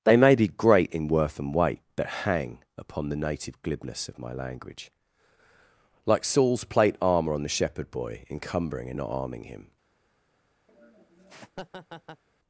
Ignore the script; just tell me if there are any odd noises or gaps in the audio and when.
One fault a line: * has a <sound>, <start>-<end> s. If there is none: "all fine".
* has a laugh, 10.7-12.2 s